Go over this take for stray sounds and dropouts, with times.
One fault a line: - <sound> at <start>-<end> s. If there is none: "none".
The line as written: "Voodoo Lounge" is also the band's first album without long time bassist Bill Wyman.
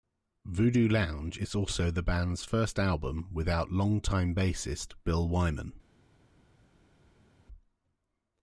none